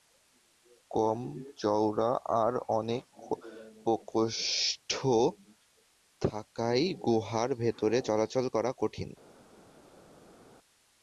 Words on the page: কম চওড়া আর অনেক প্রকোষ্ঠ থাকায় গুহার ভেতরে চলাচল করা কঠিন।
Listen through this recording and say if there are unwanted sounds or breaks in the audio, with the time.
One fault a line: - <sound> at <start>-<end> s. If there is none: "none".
none